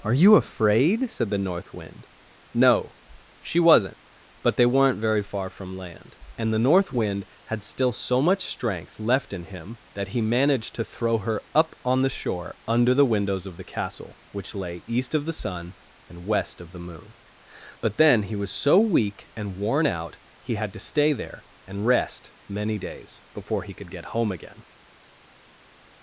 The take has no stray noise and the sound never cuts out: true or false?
true